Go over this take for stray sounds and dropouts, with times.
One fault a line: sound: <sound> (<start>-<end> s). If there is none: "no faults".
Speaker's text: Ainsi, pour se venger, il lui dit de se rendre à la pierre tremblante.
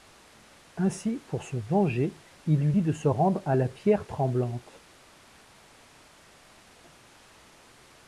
no faults